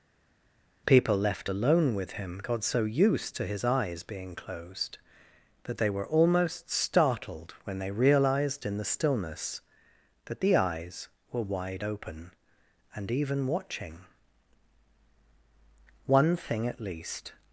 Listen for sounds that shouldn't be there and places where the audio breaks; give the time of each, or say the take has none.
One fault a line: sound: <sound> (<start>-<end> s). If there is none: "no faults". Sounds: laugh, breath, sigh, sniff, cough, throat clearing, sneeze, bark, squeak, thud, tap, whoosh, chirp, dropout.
no faults